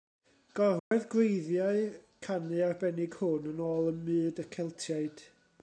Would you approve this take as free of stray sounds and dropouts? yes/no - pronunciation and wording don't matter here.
no